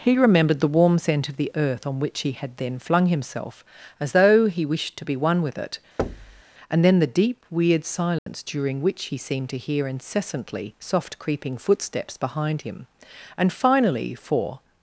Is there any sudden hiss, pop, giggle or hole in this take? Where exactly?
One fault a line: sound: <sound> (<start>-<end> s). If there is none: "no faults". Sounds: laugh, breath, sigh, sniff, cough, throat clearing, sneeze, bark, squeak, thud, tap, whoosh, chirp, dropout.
sound: thud (6.0-6.4 s)
sound: dropout (8.2-8.3 s)